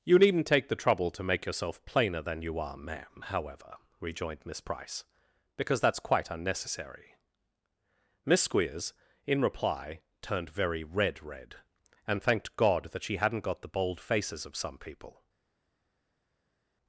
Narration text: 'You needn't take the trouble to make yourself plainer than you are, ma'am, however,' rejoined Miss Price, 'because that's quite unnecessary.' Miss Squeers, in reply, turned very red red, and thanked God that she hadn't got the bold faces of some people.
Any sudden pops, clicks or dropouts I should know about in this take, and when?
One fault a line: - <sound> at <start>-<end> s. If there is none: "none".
none